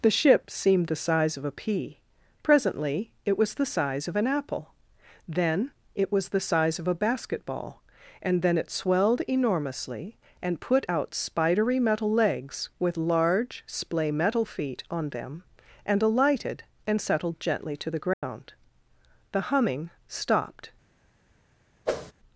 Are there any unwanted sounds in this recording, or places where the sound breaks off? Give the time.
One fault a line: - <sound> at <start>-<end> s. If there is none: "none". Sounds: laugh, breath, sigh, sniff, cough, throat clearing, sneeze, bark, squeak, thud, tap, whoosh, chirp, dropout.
- dropout at 18.1-18.2 s
- whoosh at 21.9-22.1 s